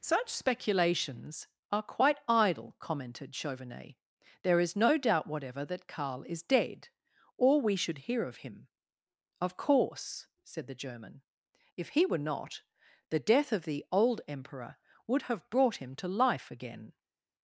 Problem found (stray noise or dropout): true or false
false